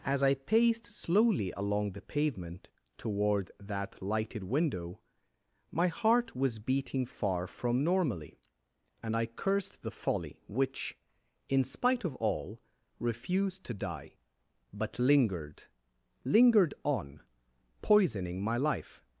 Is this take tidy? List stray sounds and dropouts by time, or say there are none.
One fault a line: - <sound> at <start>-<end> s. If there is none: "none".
none